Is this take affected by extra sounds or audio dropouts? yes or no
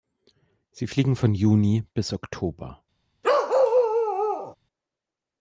yes